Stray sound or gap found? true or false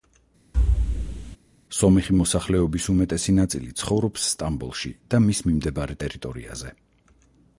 true